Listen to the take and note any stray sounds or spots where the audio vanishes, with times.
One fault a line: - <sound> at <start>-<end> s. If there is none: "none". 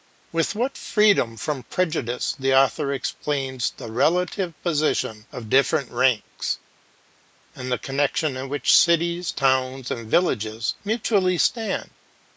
none